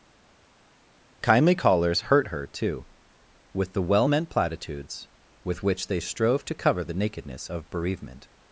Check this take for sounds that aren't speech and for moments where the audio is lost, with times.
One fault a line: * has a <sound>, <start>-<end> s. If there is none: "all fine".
all fine